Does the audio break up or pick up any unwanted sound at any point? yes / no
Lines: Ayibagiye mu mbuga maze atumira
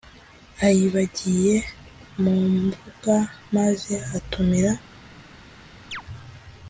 yes